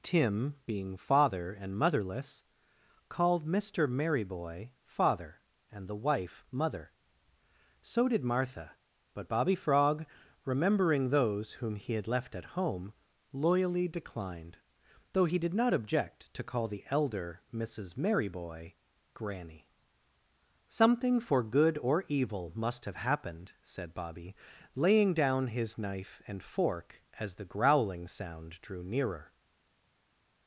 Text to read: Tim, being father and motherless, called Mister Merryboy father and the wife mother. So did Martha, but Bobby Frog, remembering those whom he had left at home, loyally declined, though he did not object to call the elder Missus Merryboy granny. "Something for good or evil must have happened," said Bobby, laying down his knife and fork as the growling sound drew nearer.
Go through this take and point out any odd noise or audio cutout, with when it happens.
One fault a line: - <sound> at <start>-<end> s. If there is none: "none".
none